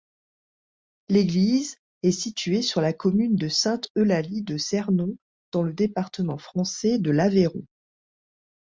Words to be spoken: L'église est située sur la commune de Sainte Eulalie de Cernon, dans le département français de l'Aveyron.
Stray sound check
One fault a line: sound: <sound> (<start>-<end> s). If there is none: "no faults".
no faults